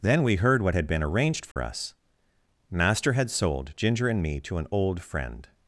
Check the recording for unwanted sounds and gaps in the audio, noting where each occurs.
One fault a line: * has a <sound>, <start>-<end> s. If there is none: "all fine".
* has a dropout, 1.5-1.6 s